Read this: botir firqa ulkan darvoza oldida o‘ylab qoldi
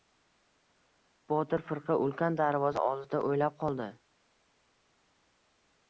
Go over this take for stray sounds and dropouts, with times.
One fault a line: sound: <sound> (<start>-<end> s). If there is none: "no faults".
no faults